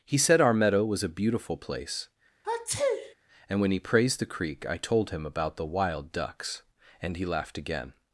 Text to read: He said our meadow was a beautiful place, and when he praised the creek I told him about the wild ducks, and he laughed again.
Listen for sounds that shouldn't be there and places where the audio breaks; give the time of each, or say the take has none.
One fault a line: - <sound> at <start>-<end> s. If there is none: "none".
- sneeze at 2.4-3.1 s